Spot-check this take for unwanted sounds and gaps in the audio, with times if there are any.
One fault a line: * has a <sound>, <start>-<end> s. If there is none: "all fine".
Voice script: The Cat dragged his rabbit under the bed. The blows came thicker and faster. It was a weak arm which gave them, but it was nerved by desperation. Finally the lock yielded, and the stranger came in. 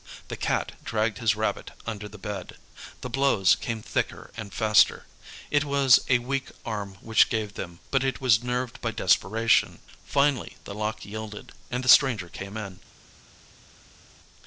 all fine